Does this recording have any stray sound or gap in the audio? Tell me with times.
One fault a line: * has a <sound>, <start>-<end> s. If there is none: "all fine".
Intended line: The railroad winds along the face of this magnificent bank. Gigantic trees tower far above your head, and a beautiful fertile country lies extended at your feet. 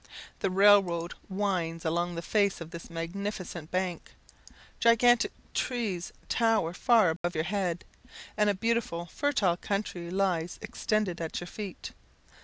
* has a dropout, 7.2-7.2 s